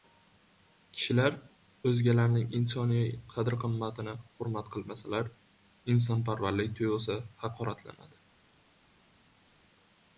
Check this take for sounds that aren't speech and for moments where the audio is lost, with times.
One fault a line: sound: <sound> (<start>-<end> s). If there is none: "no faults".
no faults